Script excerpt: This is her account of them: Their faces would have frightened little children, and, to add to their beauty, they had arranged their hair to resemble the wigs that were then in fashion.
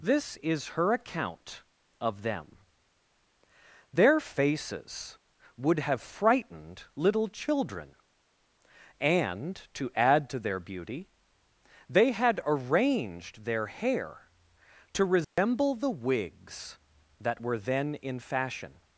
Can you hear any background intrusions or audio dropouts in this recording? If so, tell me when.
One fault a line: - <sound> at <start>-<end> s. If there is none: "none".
- dropout at 15.2-15.4 s